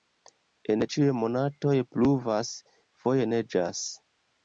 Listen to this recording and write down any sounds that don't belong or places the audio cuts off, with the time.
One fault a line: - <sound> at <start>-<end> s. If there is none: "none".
none